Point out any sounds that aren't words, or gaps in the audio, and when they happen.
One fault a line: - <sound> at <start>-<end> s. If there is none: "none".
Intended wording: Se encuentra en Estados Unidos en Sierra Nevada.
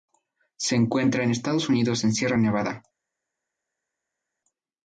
none